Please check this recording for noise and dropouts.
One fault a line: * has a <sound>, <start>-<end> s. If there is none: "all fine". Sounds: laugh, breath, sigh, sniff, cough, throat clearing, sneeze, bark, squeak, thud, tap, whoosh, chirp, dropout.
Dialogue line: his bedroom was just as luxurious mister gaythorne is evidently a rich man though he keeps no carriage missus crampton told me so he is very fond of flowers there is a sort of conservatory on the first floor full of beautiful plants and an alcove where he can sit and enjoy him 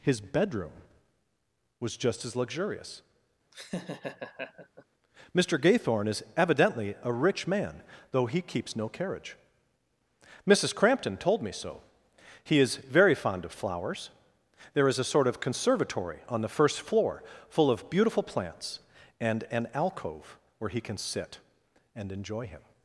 * has a laugh, 3.5-4.8 s